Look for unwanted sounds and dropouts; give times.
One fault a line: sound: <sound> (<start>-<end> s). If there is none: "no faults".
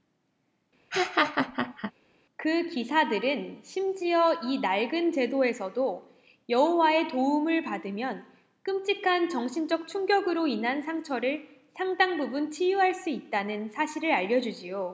sound: laugh (0.9-1.9 s)